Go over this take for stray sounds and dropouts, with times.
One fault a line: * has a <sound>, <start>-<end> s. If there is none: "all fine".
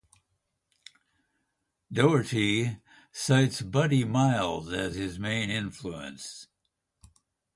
all fine